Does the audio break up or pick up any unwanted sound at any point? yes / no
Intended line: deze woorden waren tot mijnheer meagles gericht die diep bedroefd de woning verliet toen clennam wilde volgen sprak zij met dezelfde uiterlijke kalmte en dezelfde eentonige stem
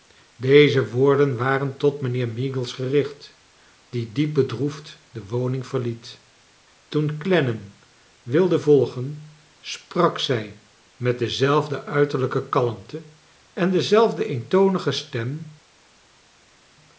no